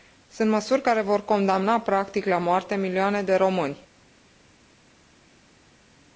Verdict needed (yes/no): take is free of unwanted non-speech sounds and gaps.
yes